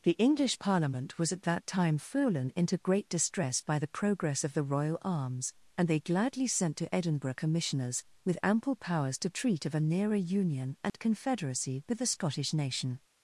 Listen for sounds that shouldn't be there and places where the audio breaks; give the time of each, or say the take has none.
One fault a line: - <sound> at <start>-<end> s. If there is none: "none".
- dropout at 10.9-10.9 s